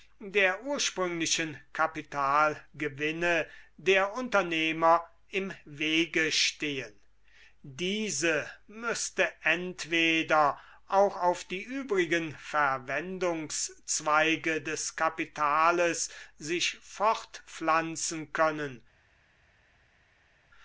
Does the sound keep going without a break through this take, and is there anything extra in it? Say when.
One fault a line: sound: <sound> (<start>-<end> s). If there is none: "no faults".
no faults